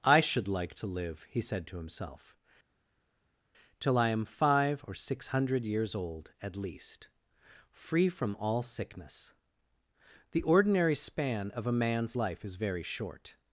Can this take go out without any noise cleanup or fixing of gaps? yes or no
yes